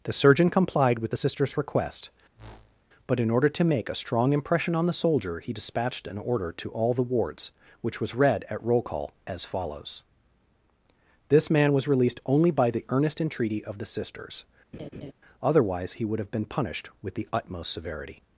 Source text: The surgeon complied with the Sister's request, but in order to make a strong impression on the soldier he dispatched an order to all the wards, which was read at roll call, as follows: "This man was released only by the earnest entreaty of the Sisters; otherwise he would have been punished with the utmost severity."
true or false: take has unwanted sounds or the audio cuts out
true